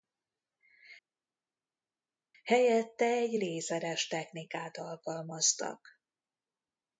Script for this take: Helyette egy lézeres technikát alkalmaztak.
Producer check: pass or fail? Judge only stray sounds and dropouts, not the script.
pass